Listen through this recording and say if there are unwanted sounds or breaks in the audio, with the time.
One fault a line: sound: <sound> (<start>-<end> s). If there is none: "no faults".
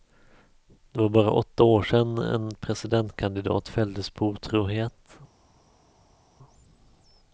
no faults